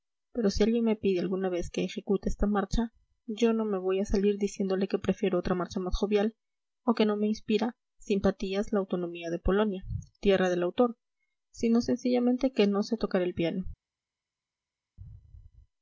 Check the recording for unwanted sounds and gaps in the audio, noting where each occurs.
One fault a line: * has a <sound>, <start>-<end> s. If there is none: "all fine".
all fine